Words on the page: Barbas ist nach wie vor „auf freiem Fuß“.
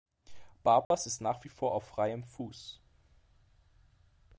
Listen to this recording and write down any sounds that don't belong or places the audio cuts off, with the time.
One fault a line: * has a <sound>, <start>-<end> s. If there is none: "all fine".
* has a dropout, 0.8-0.9 s